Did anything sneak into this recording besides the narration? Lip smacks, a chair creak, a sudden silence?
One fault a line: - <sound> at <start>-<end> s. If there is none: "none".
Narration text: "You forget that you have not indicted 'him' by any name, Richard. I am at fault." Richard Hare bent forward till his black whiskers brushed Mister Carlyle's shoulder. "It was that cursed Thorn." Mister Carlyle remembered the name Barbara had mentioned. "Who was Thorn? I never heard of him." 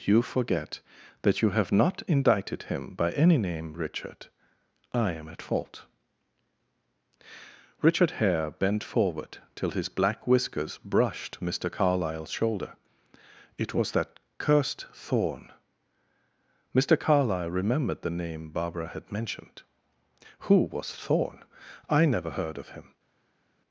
none